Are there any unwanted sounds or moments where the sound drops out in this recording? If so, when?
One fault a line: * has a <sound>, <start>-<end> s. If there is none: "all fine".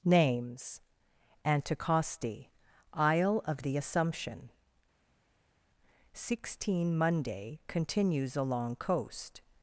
all fine